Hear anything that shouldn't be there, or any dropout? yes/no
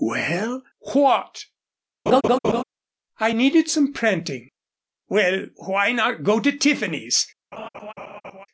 yes